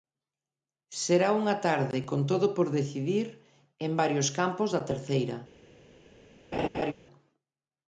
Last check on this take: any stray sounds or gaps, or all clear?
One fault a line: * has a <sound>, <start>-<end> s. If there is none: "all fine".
* has a laugh, 6.5-6.9 s